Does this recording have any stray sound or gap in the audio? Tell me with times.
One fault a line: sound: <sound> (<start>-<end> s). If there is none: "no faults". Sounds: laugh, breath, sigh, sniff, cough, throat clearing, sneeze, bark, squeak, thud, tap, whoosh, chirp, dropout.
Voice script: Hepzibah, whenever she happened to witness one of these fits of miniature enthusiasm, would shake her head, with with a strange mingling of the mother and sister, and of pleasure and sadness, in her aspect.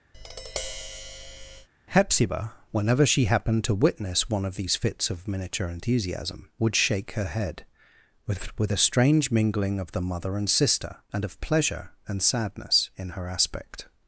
sound: tap (0.1-1.7 s)